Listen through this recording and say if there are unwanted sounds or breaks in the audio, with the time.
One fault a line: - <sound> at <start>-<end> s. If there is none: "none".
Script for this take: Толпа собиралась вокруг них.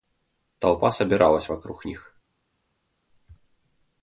none